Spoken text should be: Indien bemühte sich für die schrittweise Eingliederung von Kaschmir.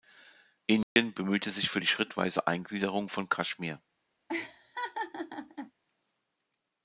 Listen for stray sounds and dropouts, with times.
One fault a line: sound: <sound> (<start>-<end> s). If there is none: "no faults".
sound: dropout (0.8-1.0 s)
sound: laugh (4.3-5.7 s)